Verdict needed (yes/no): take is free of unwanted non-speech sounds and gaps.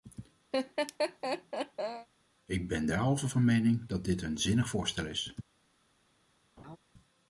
no